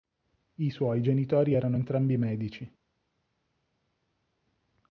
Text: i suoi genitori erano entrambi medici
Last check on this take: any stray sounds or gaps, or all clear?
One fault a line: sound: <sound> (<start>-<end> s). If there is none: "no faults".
no faults